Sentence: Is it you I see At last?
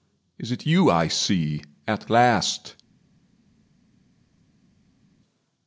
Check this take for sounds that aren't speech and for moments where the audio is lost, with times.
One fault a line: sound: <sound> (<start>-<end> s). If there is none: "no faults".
no faults